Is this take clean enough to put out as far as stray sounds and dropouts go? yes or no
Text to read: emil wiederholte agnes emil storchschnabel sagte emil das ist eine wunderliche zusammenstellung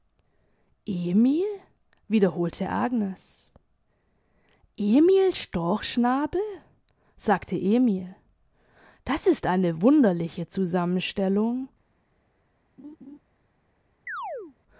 no